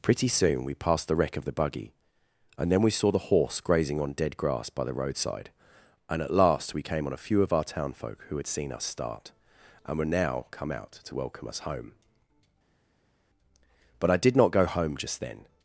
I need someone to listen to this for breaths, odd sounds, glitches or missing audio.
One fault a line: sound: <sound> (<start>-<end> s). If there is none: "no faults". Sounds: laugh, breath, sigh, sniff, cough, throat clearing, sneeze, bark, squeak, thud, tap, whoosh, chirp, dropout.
no faults